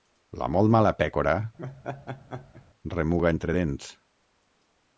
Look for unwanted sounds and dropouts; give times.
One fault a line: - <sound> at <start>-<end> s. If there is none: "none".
- laugh at 1.6-2.6 s